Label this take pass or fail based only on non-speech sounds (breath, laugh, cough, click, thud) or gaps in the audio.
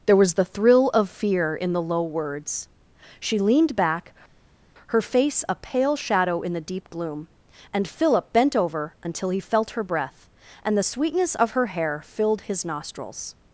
pass